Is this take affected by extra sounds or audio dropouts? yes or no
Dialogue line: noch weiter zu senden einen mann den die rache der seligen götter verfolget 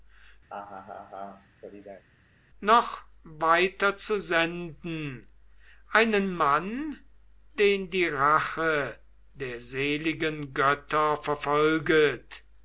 yes